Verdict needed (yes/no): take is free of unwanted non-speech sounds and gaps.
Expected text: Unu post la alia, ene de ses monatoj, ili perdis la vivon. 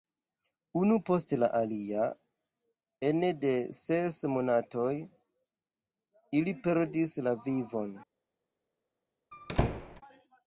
no